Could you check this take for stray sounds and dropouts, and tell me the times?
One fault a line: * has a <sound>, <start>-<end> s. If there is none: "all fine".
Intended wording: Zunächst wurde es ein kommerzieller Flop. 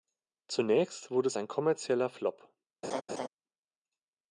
* has a laugh, 2.8-3.3 s